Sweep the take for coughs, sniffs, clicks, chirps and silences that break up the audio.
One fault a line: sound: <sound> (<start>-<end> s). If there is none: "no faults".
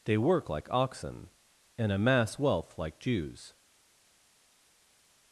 no faults